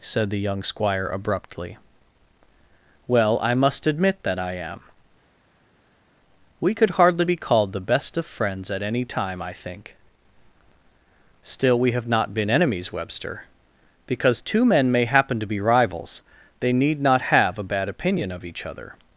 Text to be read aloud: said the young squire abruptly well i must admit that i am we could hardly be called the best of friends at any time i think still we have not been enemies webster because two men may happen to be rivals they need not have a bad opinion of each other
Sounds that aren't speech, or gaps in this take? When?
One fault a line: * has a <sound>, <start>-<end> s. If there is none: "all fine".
all fine